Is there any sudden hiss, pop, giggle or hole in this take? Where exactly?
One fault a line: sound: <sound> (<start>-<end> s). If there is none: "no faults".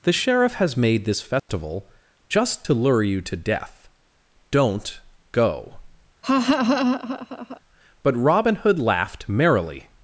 sound: dropout (1.4-1.5 s)
sound: laugh (6.2-7.6 s)